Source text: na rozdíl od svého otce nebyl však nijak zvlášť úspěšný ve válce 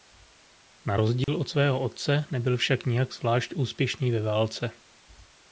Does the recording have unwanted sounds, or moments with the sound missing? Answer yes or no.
yes